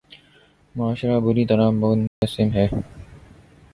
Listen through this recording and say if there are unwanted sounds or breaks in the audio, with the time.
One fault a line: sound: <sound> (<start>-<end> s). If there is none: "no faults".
sound: dropout (2.1-2.2 s)